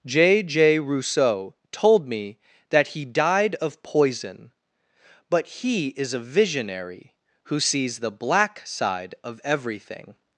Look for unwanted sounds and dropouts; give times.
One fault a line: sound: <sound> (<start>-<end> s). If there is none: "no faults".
no faults